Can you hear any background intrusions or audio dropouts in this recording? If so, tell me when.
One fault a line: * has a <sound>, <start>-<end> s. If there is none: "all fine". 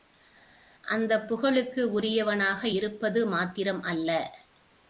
all fine